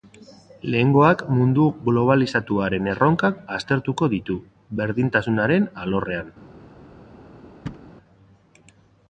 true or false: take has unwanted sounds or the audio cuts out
true